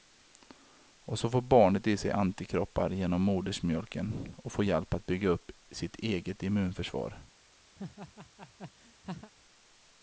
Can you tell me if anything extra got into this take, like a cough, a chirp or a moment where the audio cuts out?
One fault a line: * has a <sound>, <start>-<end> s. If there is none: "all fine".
* has a laugh, 7.8-9.3 s